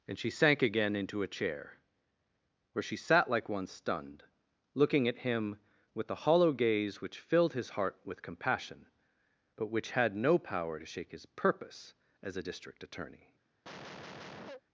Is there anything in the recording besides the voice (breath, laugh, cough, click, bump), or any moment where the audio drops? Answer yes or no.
yes